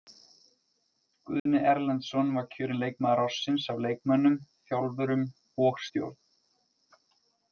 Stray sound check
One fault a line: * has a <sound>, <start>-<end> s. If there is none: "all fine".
* has a dropout, 1.4-1.5 s